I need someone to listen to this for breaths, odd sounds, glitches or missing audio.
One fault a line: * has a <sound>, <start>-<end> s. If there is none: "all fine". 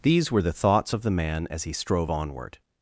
all fine